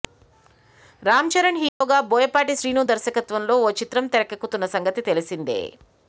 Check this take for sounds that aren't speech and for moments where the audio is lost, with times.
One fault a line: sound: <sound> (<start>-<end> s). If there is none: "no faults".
sound: dropout (1.7-1.8 s)